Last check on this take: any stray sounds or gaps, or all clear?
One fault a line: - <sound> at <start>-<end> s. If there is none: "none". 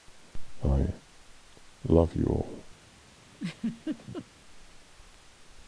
- laugh at 3.3-4.3 s